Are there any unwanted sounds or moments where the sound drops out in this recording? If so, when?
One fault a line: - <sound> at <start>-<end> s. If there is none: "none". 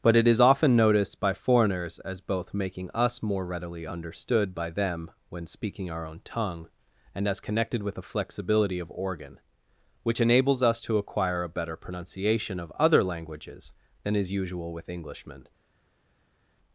none